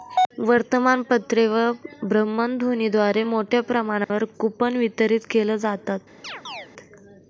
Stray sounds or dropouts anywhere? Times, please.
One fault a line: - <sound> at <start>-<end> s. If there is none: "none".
- dropout at 4.0-4.1 s
- chirp at 6.2-6.7 s